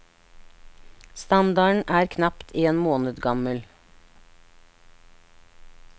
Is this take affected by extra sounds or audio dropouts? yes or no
no